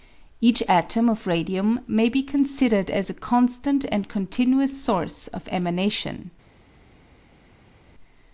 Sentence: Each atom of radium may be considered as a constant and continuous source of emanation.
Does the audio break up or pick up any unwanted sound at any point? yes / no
no